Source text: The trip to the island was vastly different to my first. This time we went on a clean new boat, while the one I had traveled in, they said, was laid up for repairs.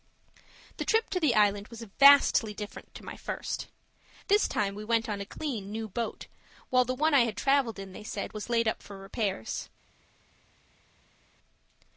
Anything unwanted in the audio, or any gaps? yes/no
no